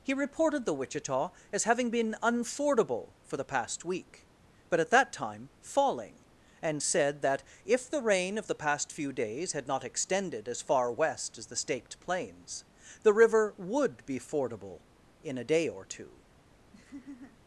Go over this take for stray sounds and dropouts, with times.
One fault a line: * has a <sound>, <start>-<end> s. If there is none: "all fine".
* has a laugh, 16.7-17.4 s